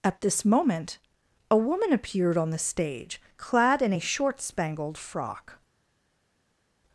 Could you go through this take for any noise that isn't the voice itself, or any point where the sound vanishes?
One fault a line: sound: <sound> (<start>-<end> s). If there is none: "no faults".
no faults